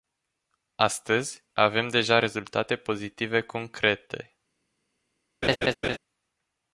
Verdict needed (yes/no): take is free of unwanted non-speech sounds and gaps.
no